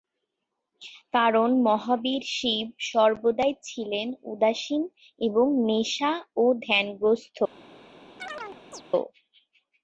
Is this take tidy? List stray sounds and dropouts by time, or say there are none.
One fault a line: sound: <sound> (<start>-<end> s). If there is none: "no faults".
sound: chirp (8.2-8.8 s)